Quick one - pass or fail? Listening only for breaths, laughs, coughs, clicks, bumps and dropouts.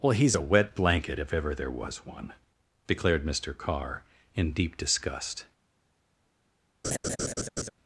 fail